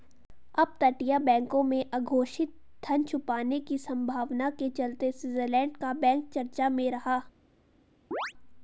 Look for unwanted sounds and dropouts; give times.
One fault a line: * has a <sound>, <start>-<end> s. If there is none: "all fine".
* has a chirp, 8.1-8.3 s